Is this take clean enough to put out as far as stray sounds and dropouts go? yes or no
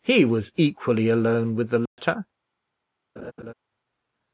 no